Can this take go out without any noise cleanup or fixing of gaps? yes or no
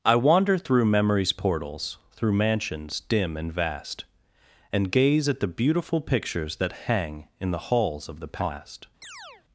no